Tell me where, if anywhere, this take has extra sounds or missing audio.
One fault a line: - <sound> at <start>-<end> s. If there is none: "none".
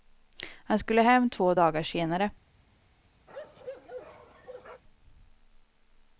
- bark at 3.3-4.8 s